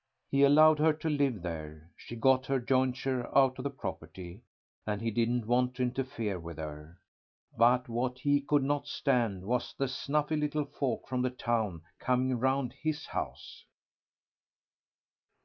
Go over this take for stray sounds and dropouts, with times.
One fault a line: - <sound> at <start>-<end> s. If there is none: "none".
none